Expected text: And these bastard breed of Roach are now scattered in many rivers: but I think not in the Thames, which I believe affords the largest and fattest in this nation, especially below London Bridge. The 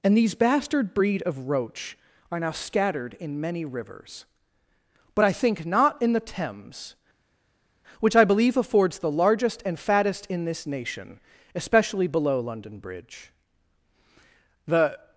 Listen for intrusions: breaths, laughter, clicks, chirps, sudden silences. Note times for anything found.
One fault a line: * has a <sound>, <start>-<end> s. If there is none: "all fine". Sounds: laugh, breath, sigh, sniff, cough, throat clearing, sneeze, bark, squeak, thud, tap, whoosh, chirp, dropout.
all fine